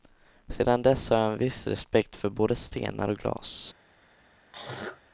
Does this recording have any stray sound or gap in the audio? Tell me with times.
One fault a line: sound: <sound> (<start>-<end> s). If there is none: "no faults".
sound: throat clearing (4.5-5.0 s)